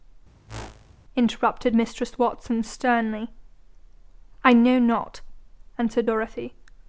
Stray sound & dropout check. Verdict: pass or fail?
fail